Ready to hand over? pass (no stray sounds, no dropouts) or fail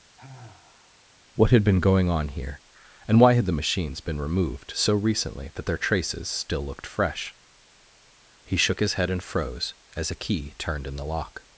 fail